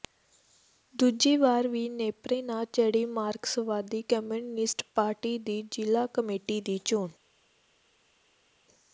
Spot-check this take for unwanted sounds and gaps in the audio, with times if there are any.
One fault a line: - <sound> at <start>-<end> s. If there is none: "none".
none